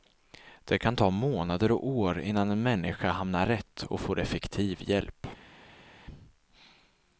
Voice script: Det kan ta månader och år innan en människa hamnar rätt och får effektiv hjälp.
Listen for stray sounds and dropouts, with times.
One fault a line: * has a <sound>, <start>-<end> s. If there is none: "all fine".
all fine